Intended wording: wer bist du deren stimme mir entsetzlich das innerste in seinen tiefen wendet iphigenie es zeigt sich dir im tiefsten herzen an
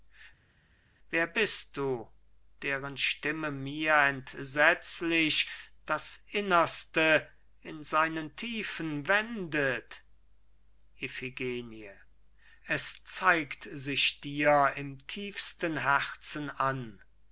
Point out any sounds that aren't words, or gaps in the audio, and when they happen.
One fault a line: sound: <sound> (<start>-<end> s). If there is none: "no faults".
no faults